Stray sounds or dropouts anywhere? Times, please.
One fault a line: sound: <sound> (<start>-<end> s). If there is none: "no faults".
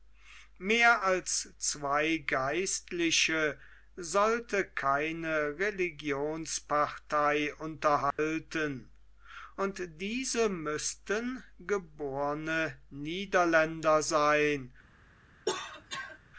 sound: dropout (8.1-8.2 s)
sound: cough (15.5-16.2 s)